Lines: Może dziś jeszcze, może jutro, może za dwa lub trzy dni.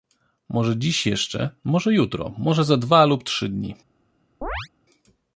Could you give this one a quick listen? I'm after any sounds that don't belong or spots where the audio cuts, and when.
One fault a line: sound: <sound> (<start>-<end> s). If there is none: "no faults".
sound: chirp (4.4-4.7 s)